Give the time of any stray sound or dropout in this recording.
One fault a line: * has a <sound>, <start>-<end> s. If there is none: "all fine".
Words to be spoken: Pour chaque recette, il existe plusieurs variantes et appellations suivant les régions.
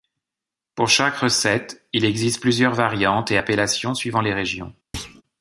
* has a thud, 4.9-5.2 s